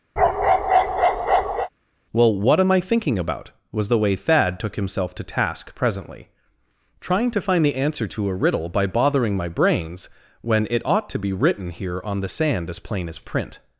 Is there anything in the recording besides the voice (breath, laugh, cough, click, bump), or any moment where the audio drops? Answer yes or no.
yes